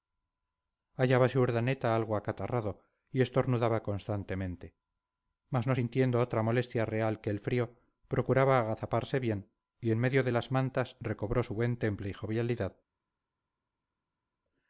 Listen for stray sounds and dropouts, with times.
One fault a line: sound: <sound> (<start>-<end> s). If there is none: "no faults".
no faults